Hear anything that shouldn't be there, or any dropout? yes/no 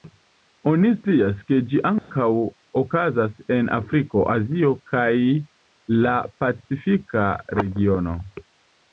yes